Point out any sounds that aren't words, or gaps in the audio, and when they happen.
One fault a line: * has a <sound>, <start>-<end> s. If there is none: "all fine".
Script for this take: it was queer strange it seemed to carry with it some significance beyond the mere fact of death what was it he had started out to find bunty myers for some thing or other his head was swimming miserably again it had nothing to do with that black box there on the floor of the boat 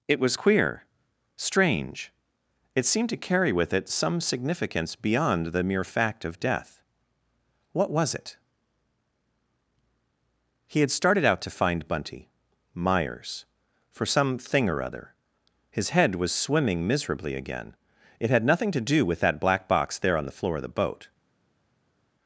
all fine